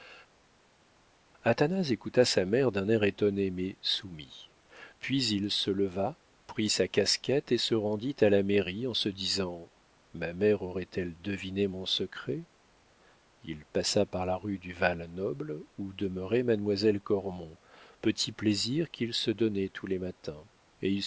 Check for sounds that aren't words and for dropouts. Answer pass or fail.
pass